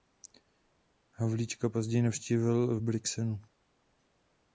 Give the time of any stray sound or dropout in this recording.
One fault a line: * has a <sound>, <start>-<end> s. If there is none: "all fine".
all fine